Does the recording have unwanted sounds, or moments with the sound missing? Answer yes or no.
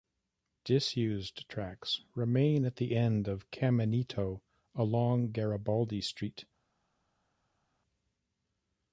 no